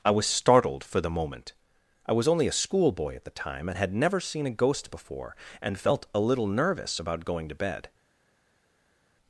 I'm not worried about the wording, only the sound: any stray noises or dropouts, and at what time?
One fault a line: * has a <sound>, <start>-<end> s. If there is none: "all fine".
all fine